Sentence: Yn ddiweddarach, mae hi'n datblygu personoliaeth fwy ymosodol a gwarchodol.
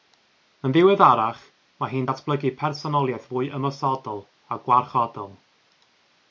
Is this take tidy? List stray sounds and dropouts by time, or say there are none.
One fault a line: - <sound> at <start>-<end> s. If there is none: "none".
none